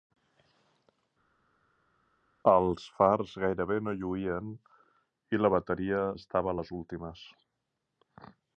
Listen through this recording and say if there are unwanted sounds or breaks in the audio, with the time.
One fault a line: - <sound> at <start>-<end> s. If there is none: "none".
none